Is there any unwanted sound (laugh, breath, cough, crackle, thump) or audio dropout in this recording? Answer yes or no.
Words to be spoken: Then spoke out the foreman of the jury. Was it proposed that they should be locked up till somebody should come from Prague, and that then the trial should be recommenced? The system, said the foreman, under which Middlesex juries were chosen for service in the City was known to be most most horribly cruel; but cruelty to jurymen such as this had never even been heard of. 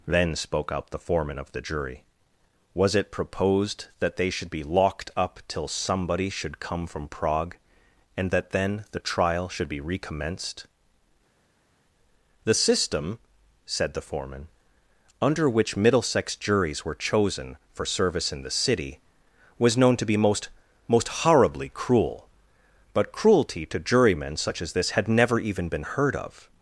no